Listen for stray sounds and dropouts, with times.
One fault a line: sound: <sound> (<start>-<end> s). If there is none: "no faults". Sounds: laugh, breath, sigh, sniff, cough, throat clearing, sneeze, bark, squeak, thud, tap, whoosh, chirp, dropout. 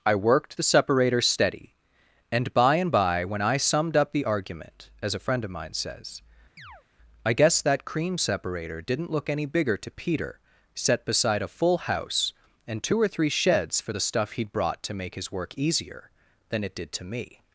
sound: chirp (6.6-6.8 s)